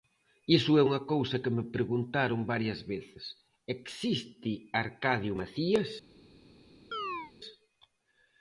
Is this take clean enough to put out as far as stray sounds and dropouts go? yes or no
no